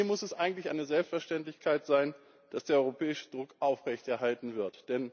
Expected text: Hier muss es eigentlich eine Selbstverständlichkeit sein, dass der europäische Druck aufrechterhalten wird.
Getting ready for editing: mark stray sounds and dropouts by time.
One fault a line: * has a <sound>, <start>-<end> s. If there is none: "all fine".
all fine